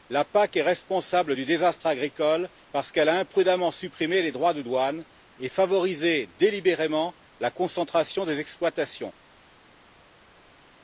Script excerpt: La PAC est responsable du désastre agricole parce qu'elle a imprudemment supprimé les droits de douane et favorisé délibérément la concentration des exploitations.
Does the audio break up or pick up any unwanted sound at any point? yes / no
no